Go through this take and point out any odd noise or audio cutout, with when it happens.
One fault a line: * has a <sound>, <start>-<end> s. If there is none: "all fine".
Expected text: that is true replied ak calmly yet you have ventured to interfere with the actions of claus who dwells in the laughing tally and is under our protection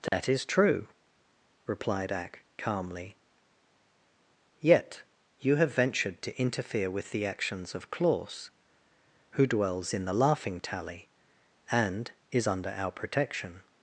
* has a dropout, 0.1-0.1 s